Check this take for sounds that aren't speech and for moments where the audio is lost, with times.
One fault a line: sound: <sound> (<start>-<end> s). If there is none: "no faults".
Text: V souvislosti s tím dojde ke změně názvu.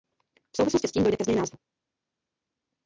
no faults